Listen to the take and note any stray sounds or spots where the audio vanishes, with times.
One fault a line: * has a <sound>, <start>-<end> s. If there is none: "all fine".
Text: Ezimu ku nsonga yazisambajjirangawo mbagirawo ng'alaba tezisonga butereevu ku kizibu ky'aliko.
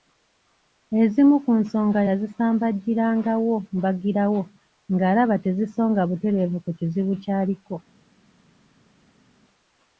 all fine